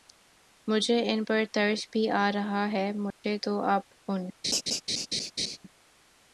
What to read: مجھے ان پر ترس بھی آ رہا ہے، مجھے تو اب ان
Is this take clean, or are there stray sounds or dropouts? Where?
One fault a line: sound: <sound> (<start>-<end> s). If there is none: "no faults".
sound: dropout (3.1-3.2 s)
sound: laugh (4.4-5.6 s)